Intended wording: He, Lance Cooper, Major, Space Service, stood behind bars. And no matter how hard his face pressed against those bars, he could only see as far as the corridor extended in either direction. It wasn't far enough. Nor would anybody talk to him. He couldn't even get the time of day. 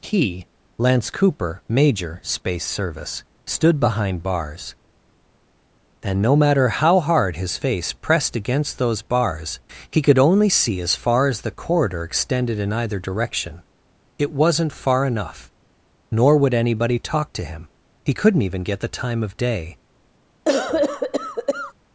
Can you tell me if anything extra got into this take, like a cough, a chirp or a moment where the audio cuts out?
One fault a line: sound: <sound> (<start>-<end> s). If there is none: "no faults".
sound: cough (20.5-21.7 s)